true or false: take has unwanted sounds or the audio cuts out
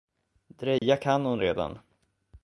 true